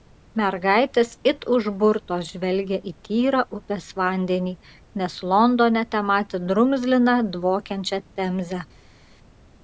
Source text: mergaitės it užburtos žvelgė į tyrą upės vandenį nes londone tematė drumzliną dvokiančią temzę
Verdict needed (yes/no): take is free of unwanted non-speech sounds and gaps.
yes